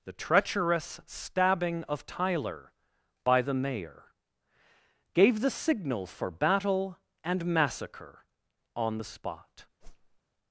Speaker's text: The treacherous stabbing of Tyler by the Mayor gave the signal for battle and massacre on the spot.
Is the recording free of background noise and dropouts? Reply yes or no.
no